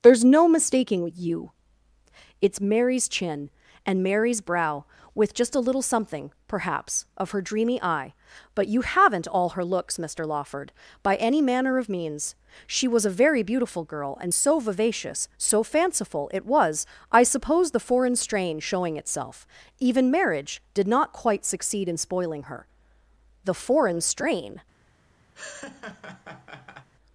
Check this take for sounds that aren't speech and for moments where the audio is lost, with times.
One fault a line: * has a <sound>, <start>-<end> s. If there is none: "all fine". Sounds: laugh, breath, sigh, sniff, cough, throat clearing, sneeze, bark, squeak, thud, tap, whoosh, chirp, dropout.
* has a laugh, 25.3-26.9 s